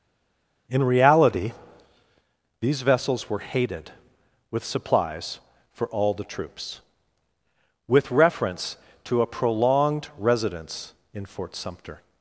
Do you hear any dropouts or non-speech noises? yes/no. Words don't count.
no